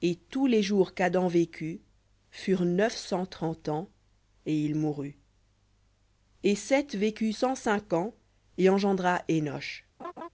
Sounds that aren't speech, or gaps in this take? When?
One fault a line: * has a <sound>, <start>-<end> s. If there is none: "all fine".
* has a laugh, 10.0-10.3 s